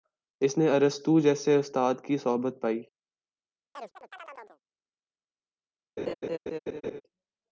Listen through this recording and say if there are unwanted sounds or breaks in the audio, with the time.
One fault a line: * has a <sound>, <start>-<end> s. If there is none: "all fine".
* has a chirp, 3.7-4.6 s
* has a laugh, 6.0-7.0 s